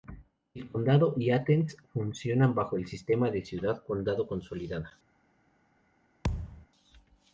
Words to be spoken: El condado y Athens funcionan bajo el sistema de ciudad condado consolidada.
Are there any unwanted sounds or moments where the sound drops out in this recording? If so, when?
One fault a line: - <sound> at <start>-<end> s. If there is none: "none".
- thud at 6.2-6.7 s